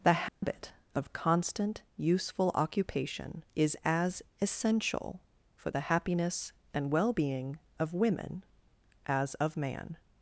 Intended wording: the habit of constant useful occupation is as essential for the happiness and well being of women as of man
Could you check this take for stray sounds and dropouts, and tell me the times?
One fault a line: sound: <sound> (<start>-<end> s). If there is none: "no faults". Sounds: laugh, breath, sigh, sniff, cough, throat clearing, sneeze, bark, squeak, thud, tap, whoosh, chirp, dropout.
sound: dropout (0.3-0.4 s)